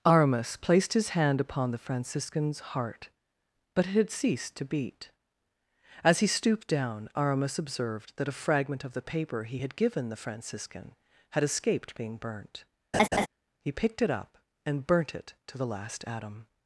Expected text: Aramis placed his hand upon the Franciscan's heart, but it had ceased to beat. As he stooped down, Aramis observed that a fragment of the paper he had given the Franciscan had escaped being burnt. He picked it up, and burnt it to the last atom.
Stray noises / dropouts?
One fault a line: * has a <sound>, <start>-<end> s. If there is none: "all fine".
* has a laugh, 12.9-13.3 s